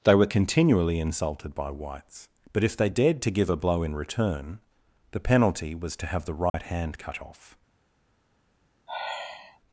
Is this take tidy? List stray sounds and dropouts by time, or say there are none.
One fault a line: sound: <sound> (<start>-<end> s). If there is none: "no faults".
sound: dropout (6.5-6.5 s)
sound: sigh (8.9-9.6 s)